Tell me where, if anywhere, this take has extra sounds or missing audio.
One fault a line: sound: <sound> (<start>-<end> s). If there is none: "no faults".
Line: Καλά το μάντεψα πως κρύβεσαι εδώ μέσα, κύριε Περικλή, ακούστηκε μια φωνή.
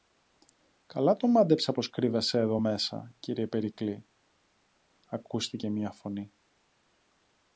no faults